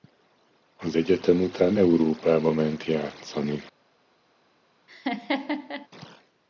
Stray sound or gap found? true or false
true